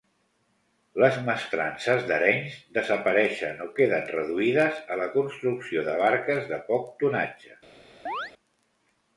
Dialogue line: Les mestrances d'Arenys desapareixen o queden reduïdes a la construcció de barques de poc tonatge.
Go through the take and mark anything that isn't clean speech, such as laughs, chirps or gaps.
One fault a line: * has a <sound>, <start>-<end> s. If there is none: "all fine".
* has a chirp, 8.1-8.3 s